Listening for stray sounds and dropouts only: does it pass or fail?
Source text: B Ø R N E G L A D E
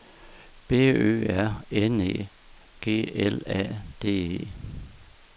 pass